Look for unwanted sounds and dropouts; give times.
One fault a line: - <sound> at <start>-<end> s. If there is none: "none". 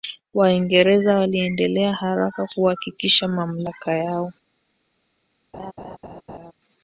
- laugh at 5.5-6.5 s